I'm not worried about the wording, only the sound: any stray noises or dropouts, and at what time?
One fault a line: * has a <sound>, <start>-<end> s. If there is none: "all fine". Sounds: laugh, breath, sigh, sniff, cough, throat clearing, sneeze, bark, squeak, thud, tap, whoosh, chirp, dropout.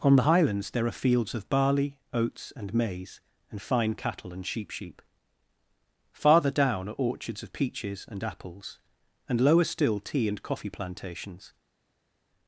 all fine